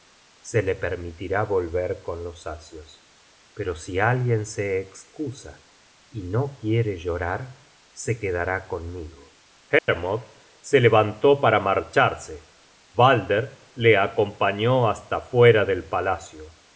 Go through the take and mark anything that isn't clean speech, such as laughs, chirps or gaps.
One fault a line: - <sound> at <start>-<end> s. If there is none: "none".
- dropout at 9.8-9.9 s